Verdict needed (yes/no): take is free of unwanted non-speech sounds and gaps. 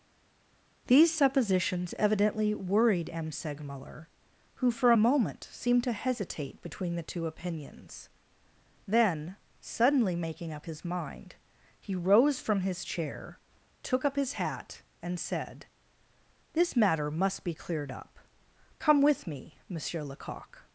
yes